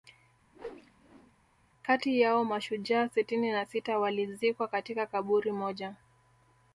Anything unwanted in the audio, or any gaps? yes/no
yes